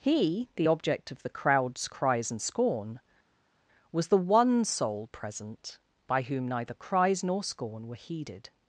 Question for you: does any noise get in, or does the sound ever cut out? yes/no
no